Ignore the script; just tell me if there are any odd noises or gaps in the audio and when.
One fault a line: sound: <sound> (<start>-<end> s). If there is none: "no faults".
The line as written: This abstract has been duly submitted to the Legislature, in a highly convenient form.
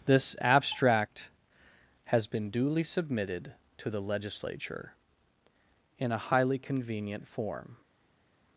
no faults